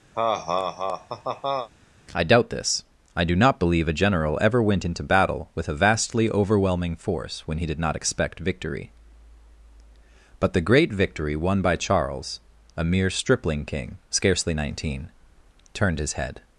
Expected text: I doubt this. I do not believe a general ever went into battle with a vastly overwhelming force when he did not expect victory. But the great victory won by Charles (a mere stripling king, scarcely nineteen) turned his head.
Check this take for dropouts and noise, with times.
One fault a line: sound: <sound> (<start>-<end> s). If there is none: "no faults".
sound: laugh (0.1-1.7 s)